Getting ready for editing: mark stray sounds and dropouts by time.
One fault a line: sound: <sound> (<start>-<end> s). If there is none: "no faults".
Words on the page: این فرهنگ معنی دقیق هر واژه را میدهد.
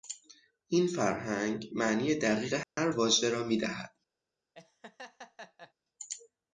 sound: dropout (2.6-2.8 s)
sound: laugh (4.5-5.7 s)